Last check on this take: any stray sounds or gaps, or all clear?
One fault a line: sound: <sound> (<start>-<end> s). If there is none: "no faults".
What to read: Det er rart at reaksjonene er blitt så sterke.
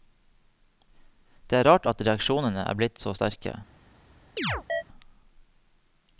sound: chirp (4.4-4.8 s)